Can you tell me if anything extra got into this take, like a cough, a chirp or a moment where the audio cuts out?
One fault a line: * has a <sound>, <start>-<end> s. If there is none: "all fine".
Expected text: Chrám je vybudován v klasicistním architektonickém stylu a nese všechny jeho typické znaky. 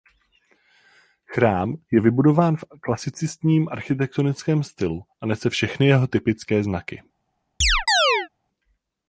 * has a chirp, 7.6-8.3 s